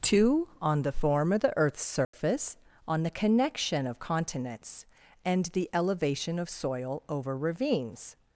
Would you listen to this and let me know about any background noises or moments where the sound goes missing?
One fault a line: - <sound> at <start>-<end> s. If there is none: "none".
- dropout at 2.0-2.1 s